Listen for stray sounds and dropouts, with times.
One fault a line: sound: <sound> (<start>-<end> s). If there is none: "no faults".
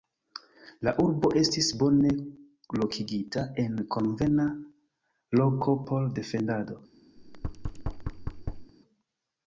sound: thud (7.2-8.7 s)